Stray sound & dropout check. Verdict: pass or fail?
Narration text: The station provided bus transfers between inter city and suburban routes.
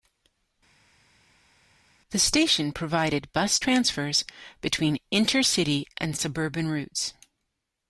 pass